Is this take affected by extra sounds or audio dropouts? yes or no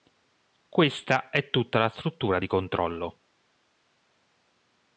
no